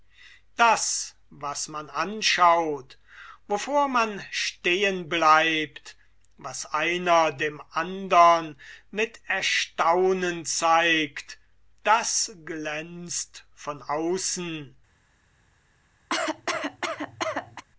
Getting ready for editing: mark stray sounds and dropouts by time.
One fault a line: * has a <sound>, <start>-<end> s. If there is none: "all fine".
* has a cough, 16.1-17.6 s